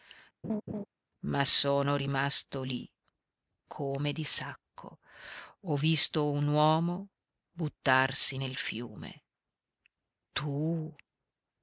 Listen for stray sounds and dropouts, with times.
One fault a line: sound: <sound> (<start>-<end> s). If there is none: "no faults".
sound: laugh (0.4-0.9 s)